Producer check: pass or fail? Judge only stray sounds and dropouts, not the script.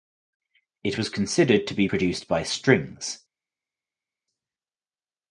pass